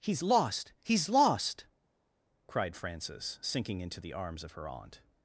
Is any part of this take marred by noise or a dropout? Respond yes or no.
no